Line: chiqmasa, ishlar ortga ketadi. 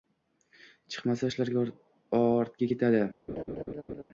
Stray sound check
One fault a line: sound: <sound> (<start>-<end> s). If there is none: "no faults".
sound: laugh (3.3-4.0 s)